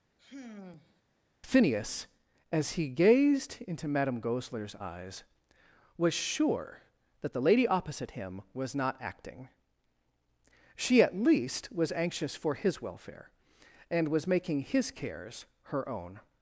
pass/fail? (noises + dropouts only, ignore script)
fail